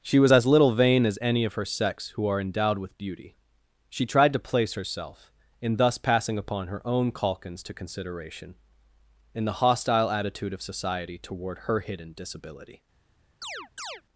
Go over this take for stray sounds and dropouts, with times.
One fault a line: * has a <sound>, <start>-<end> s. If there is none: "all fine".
* has a chirp, 13.4-14.0 s